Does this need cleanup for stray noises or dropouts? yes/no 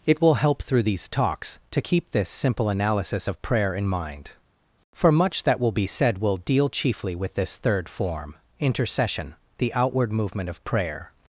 no